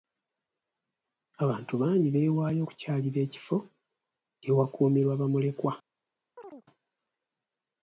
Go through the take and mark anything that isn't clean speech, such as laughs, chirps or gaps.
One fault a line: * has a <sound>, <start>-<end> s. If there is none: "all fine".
* has a chirp, 6.4-6.7 s